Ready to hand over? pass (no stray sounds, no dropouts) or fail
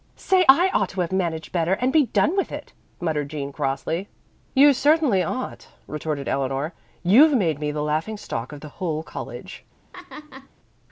fail